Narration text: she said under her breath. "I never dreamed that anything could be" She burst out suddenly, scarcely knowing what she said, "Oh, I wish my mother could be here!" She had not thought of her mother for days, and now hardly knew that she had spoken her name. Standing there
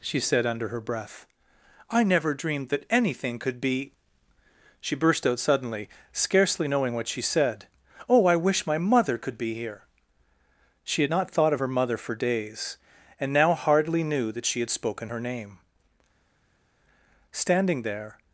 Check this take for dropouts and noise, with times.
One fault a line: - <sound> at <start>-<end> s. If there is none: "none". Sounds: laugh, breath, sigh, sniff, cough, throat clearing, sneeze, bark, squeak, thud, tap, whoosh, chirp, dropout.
none